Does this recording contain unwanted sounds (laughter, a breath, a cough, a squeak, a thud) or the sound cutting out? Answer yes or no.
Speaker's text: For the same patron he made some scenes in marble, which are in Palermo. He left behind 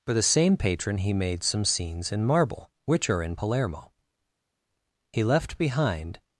no